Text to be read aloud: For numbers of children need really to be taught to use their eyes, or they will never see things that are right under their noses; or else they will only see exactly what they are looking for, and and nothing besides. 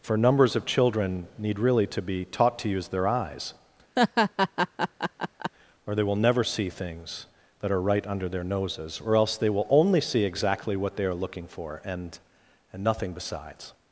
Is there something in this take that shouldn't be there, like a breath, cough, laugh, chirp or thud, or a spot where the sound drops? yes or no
yes